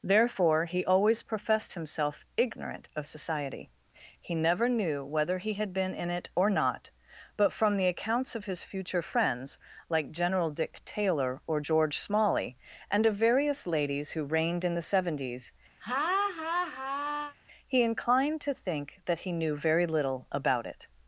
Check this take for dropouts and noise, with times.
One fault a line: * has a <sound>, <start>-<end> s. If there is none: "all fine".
* has a laugh, 15.8-17.4 s